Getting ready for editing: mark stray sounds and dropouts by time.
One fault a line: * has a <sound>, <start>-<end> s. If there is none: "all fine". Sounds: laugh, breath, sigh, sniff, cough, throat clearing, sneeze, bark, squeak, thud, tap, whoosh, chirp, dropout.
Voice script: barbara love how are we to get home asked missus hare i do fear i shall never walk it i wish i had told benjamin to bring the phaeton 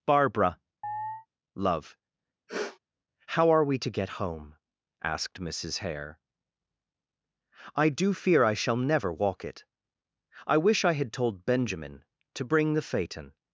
* has a chirp, 0.8-1.3 s
* has a sniff, 2.5-2.8 s